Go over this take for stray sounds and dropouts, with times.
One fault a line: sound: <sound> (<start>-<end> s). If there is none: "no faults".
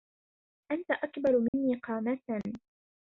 sound: dropout (1.5-1.5 s)